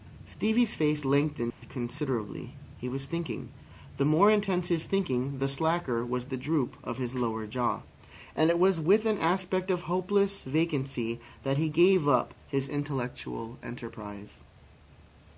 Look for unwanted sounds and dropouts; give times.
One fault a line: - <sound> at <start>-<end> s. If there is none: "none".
- dropout at 1.5-1.6 s